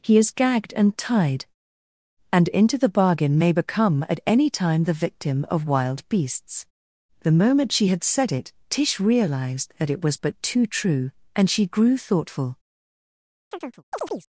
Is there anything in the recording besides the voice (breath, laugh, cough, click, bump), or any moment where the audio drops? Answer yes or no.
yes